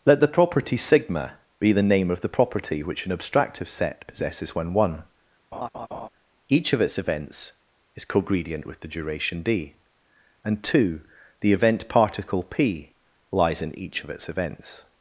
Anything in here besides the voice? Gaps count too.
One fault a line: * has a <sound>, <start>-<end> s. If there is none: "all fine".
* has a laugh, 5.5-6.1 s